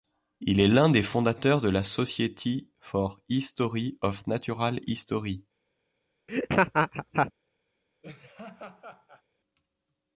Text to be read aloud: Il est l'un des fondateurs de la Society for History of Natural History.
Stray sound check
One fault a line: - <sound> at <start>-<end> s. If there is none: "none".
- laugh at 6.3-7.3 s
- laugh at 8.0-9.2 s